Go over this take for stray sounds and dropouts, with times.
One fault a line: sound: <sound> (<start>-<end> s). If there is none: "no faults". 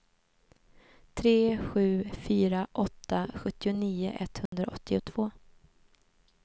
sound: dropout (4.5-4.5 s)